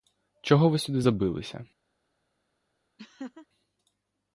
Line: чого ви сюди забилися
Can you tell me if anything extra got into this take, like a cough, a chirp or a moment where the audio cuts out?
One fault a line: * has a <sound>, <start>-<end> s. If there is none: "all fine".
* has a laugh, 3.0-3.5 s